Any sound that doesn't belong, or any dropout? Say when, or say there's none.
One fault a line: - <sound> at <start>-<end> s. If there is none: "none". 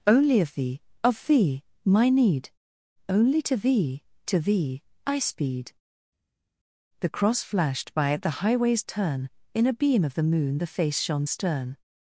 none